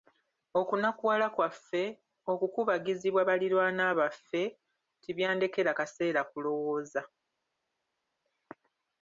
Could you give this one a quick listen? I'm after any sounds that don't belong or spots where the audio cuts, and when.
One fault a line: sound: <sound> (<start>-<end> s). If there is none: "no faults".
no faults